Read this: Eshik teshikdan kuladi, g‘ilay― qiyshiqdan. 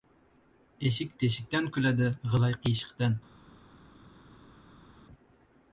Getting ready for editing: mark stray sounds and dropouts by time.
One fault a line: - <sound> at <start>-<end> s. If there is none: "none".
none